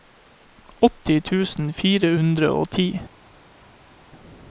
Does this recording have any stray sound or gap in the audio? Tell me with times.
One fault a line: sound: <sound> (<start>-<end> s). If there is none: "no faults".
no faults